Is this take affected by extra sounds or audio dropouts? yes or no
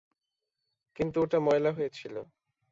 no